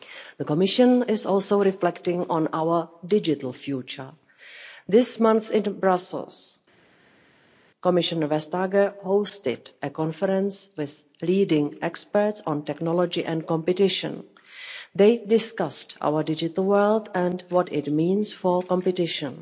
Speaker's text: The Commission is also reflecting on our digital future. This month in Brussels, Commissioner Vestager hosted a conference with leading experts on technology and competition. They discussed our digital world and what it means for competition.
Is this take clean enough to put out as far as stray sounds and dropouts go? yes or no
yes